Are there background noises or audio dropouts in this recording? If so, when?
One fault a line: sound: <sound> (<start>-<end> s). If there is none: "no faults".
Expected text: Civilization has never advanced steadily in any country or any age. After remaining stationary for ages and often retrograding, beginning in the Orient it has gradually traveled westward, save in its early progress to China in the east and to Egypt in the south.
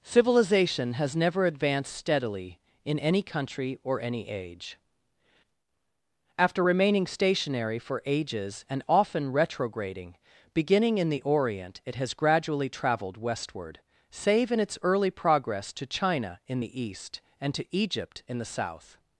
no faults